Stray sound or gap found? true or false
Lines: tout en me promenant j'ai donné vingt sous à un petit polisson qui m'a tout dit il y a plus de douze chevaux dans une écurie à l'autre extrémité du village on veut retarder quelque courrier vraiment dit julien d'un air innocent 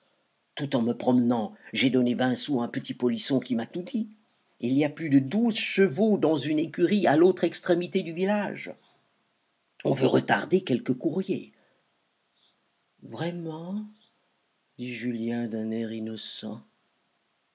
false